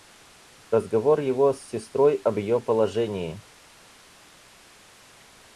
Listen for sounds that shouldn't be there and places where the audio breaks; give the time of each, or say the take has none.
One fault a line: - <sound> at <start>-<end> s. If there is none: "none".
none